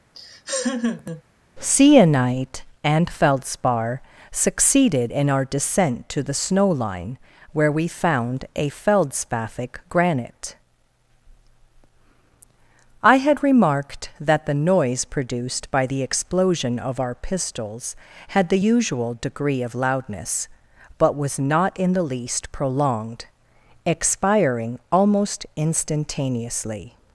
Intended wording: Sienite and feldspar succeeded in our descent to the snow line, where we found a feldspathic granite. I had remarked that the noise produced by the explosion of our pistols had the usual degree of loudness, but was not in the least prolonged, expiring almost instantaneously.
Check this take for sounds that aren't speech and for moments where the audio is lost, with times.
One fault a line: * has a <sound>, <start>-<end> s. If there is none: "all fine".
* has a laugh, 0.1-1.2 s